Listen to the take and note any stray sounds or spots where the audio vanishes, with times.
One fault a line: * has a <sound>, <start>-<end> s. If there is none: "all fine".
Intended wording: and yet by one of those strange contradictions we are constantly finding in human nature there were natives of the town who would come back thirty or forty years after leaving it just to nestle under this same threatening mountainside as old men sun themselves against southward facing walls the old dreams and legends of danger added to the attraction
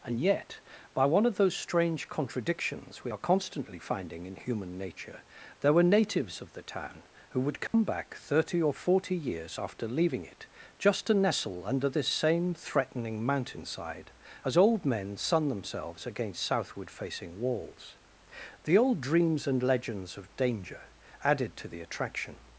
* has a dropout, 7.7-7.7 s